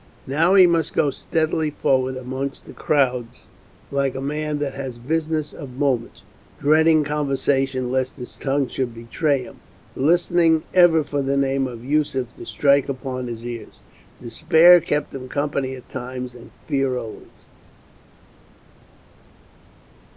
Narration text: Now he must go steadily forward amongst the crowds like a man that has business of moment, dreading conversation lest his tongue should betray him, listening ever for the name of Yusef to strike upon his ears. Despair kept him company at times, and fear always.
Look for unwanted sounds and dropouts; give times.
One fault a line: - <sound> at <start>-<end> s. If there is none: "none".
none